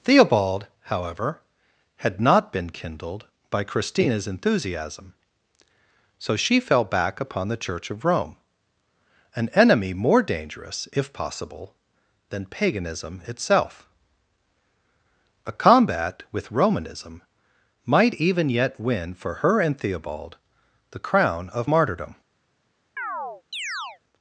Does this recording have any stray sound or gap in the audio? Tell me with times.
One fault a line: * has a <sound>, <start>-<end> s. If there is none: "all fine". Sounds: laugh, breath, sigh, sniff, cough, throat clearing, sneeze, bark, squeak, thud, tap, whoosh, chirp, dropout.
* has a chirp, 23.0-24.0 s